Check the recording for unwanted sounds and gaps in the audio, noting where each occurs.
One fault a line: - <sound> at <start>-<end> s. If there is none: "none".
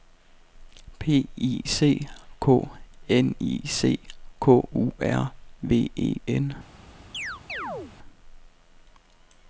- chirp at 7.1-7.9 s